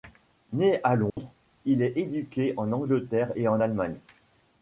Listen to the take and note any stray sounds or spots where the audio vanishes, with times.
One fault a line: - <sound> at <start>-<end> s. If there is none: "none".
- dropout at 1.1-1.2 s